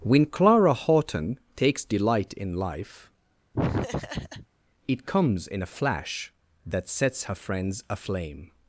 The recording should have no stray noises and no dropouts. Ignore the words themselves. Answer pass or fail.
fail